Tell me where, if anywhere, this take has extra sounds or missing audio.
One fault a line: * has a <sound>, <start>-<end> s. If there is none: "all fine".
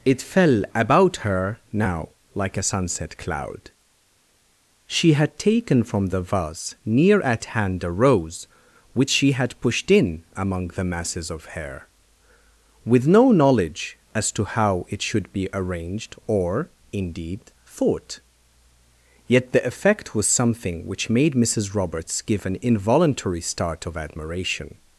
all fine